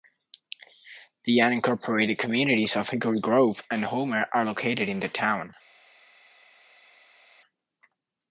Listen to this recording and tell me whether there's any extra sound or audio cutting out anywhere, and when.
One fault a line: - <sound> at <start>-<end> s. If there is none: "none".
none